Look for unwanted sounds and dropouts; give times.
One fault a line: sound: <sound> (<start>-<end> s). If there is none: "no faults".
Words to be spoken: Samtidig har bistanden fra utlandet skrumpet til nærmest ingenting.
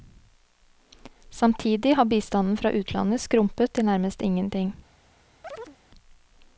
sound: chirp (5.4-5.8 s)